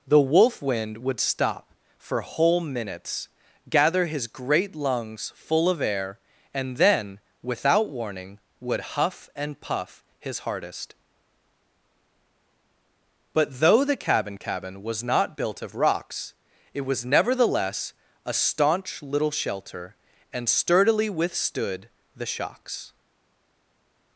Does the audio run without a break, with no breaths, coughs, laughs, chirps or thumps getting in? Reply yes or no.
yes